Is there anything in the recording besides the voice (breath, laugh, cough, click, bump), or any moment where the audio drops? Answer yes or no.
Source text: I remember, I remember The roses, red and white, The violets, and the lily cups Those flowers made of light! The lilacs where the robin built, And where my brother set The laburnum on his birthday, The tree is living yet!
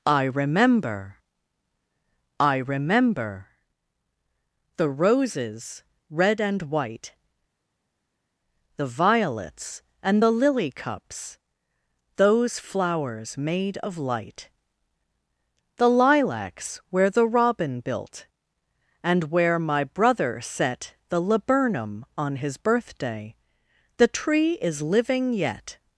no